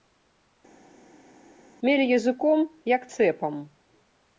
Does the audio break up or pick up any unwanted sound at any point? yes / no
no